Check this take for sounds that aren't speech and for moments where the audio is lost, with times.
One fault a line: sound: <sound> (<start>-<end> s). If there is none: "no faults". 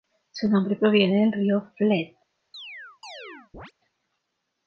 sound: chirp (2.5-3.7 s)